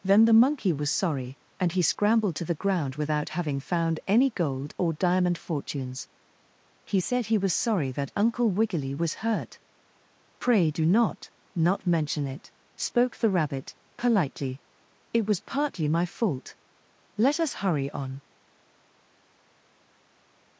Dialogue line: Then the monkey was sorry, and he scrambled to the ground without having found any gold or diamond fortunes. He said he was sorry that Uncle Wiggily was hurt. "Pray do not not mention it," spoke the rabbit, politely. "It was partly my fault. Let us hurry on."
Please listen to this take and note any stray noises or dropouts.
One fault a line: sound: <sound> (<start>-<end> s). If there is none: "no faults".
no faults